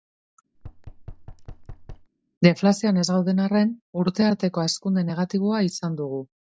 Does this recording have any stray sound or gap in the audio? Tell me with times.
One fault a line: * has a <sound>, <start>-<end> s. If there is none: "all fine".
* has a thud, 0.5-2.1 s